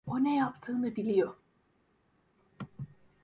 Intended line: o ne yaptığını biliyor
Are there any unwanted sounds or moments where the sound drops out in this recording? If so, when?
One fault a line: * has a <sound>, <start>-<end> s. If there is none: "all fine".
all fine